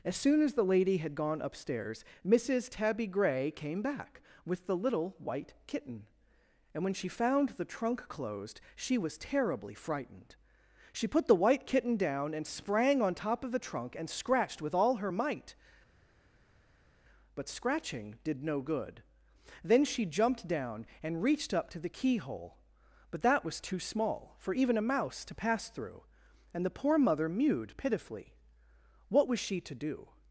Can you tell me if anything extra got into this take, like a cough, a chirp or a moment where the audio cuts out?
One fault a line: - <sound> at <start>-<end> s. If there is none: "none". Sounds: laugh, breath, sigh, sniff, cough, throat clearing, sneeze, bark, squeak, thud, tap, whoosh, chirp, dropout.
none